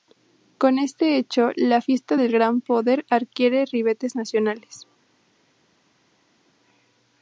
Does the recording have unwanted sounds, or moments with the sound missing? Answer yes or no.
no